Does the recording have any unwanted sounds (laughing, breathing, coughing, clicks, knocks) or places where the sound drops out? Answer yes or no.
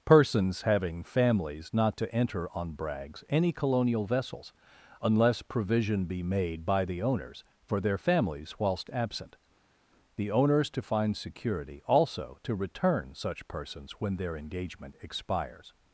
no